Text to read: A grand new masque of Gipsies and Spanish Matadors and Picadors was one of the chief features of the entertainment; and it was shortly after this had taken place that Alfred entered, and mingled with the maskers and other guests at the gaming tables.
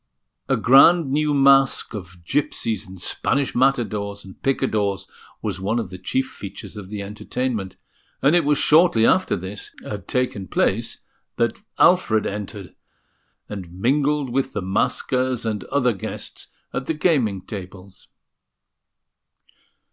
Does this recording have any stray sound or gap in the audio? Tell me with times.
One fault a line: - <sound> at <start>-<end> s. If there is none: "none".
none